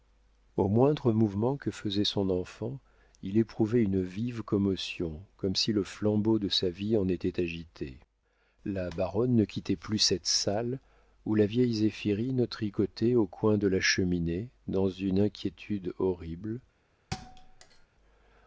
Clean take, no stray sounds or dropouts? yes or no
no